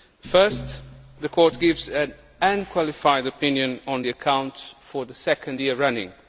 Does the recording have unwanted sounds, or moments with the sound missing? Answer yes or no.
no